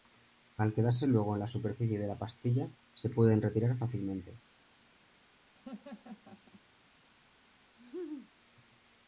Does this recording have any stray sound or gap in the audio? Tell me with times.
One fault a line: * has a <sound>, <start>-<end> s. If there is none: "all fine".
* has a laugh, 5.5-6.6 s
* has a laugh, 7.7-8.3 s